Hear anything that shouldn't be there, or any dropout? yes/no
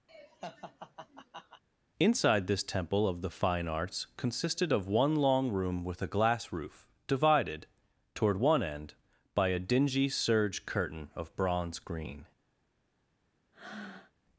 yes